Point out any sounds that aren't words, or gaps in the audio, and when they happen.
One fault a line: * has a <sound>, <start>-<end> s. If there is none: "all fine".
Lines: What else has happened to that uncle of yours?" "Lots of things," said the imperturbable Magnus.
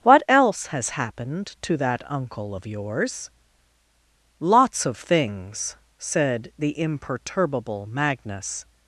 all fine